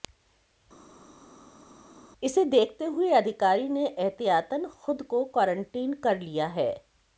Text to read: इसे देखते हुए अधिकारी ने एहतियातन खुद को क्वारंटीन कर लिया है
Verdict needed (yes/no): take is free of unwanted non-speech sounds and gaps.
yes